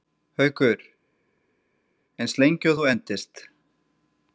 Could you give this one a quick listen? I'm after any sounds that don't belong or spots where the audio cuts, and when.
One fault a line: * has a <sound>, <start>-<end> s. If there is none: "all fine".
all fine